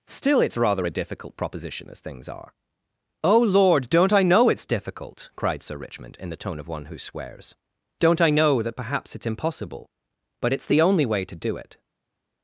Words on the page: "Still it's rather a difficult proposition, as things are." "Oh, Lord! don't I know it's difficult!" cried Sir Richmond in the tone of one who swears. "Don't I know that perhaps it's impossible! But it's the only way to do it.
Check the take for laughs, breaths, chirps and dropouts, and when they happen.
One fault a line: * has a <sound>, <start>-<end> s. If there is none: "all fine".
all fine